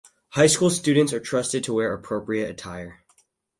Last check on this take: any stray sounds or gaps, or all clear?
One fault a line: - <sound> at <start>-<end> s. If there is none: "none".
none